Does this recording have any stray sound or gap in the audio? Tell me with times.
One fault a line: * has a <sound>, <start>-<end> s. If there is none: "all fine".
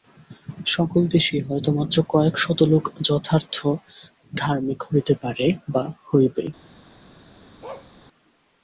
* has a bark, 7.6-7.9 s